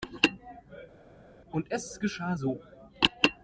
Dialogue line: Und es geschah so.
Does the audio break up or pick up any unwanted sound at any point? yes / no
no